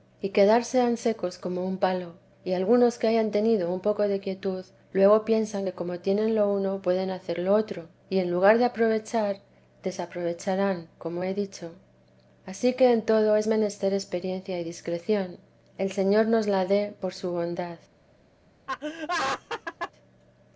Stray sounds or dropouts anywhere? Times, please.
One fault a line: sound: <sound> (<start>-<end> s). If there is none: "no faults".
sound: laugh (18.7-19.9 s)